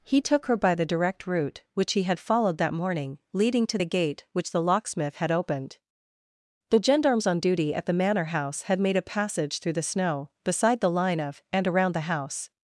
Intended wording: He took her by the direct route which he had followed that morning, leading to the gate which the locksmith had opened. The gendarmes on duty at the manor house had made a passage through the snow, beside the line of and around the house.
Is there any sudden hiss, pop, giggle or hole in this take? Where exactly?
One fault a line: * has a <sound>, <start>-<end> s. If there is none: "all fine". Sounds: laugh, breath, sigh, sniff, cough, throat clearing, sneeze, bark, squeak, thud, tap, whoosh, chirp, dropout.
all fine